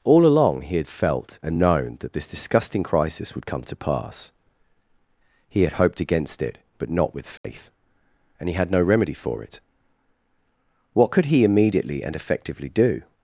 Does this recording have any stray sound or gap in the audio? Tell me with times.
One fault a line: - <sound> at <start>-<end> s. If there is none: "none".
- dropout at 7.4-7.4 s